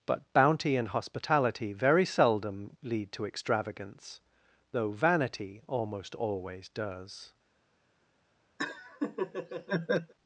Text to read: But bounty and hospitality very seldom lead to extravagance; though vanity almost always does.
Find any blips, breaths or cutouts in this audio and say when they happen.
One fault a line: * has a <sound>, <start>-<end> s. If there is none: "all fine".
* has a laugh, 8.6-10.1 s